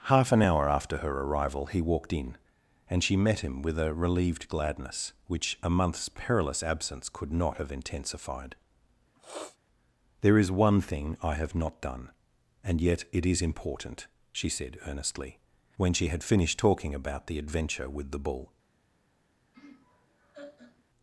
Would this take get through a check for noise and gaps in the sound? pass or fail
fail